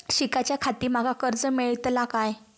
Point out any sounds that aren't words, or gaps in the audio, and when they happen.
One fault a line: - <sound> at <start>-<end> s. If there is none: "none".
none